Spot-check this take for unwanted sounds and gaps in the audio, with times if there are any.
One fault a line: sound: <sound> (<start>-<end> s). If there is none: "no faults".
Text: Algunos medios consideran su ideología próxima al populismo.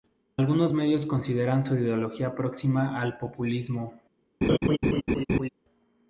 sound: laugh (4.4-5.5 s)